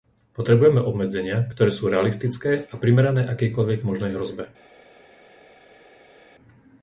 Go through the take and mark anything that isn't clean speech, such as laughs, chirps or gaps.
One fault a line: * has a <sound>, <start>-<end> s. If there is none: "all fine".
all fine